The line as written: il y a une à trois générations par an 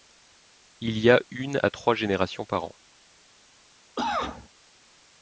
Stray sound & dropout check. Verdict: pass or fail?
fail